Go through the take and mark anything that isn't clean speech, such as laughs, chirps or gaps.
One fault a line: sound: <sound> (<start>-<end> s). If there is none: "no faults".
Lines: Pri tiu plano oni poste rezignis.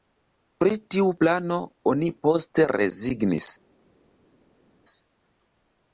no faults